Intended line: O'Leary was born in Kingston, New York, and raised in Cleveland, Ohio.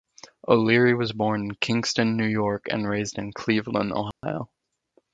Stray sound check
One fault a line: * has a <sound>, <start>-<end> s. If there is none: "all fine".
* has a dropout, 4.1-4.2 s